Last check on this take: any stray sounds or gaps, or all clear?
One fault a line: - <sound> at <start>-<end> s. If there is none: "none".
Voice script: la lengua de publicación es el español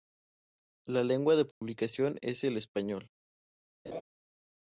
- dropout at 1.5-1.6 s
- laugh at 3.9-4.0 s